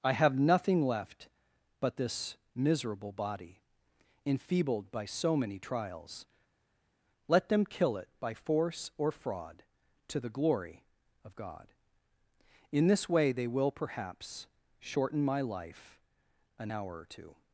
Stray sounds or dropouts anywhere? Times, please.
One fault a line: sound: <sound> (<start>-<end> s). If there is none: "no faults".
no faults